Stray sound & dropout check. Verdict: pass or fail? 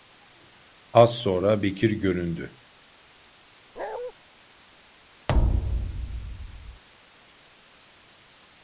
fail